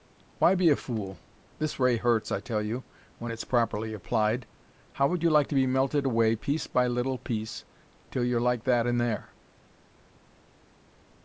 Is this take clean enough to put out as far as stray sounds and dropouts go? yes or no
yes